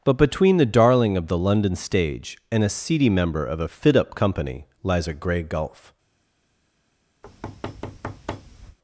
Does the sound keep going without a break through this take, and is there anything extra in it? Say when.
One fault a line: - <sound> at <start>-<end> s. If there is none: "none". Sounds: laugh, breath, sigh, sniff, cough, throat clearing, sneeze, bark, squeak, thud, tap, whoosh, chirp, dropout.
- thud at 7.2-8.8 s